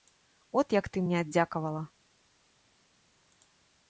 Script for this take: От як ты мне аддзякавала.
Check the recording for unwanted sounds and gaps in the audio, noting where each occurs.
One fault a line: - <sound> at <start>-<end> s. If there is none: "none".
none